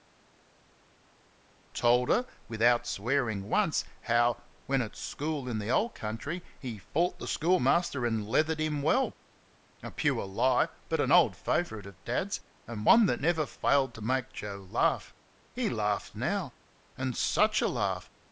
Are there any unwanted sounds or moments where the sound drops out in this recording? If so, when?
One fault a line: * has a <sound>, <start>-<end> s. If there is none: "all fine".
all fine